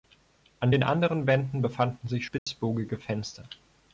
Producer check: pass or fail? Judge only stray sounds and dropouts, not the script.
fail